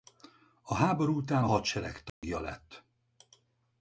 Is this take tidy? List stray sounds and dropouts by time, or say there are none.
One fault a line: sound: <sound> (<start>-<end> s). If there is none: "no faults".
sound: dropout (2.1-2.2 s)